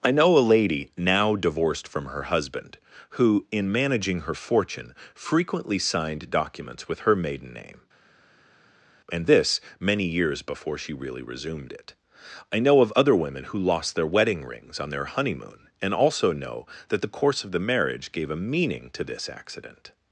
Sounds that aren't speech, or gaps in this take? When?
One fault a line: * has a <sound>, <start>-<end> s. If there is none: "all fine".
all fine